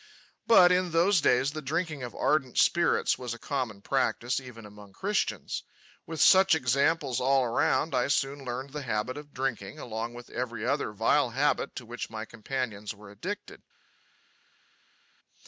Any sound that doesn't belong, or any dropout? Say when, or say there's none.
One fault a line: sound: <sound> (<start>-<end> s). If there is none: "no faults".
no faults